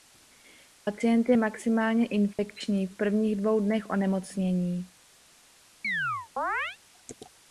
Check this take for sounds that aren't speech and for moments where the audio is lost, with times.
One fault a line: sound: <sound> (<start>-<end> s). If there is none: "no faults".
sound: dropout (2.3-2.4 s)
sound: chirp (5.8-6.8 s)